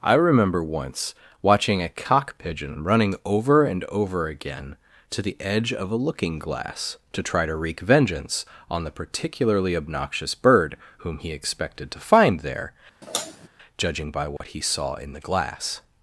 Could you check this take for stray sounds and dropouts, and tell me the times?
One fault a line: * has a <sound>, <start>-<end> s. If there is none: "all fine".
* has a sigh, 13.0-13.5 s
* has a dropout, 14.4-14.4 s